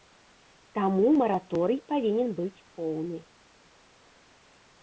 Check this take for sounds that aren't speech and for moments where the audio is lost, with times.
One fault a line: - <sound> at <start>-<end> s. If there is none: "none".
none